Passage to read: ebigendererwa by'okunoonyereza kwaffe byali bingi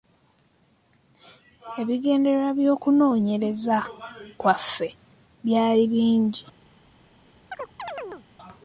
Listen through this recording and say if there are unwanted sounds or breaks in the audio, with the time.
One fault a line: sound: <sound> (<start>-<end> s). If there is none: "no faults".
sound: chirp (7.5-8.3 s)